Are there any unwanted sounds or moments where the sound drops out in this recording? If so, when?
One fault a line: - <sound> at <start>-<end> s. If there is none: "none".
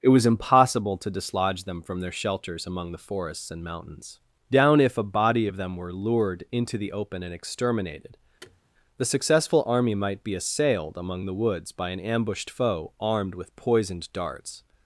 - thud at 8.4-8.6 s